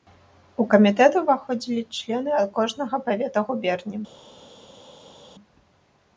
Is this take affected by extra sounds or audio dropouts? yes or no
no